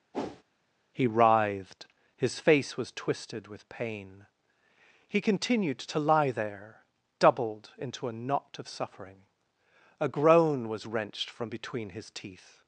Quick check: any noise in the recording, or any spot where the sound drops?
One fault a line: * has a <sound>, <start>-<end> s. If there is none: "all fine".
* has a whoosh, 0.1-0.4 s